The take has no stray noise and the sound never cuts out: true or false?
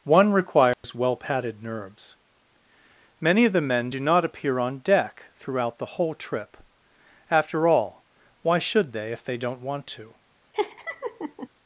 false